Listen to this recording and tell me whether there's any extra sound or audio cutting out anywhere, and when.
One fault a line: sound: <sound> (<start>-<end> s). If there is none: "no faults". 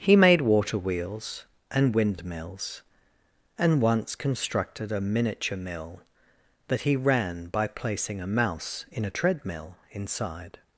no faults